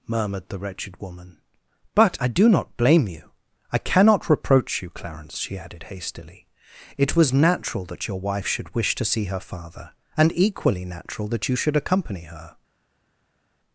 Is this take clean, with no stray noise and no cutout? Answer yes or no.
yes